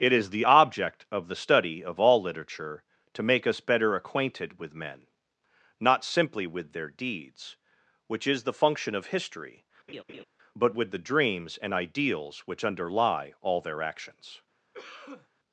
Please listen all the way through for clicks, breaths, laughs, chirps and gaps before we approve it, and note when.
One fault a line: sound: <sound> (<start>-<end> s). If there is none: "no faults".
sound: laugh (9.9-10.2 s)
sound: cough (14.7-15.3 s)